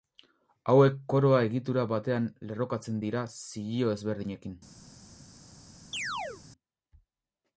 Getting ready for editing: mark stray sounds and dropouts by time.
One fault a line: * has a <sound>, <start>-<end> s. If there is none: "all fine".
* has a chirp, 5.9-6.4 s